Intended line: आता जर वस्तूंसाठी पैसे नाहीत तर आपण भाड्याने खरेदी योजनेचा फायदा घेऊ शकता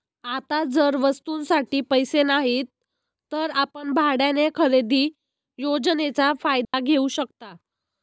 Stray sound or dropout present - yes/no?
yes